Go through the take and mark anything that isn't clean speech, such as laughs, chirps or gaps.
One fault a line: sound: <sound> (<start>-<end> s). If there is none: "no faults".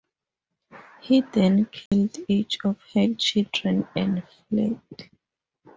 sound: dropout (1.9-1.9 s)